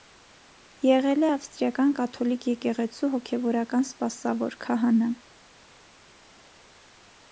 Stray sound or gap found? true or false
false